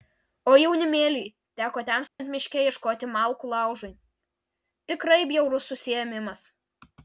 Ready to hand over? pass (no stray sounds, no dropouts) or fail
fail